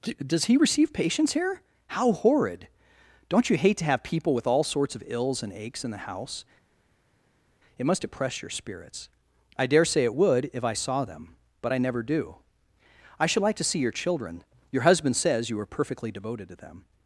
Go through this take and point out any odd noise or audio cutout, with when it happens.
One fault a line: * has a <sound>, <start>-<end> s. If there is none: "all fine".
all fine